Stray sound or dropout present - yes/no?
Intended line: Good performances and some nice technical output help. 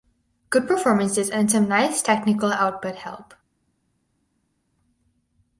no